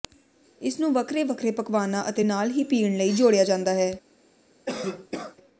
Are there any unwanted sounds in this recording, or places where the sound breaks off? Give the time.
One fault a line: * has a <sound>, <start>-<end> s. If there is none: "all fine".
* has a cough, 4.7-5.4 s